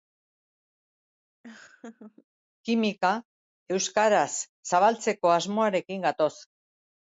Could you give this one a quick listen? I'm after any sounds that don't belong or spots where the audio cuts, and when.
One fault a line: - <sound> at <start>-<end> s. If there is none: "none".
- laugh at 1.4-2.3 s